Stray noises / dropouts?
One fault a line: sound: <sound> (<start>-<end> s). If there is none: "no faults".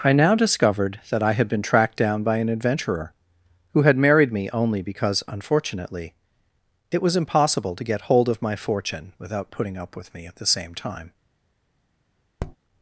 sound: tap (12.4-12.6 s)